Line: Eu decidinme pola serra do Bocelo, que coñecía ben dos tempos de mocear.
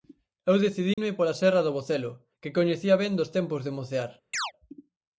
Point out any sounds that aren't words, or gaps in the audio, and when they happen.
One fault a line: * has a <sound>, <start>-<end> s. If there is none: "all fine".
* has a dropout, 0.9-1.0 s
* has a chirp, 4.3-4.5 s